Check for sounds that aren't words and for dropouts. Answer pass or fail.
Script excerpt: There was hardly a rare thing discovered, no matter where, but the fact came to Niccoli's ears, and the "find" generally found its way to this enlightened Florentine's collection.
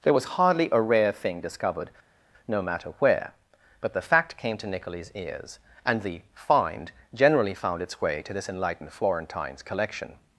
pass